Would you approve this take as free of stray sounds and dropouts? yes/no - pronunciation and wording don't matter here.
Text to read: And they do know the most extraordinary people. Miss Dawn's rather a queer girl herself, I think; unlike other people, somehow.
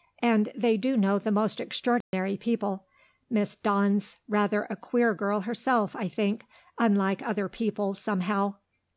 no